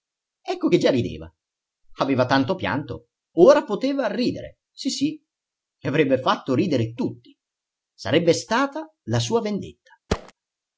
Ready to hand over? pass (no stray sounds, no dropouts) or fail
fail